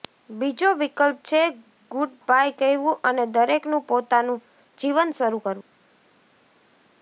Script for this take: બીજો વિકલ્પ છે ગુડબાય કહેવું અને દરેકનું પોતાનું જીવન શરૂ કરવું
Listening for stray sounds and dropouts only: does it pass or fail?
pass